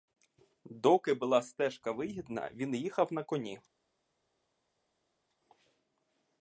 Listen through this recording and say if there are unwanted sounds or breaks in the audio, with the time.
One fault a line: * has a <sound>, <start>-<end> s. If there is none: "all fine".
all fine